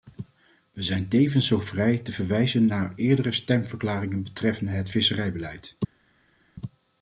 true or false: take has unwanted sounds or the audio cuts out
false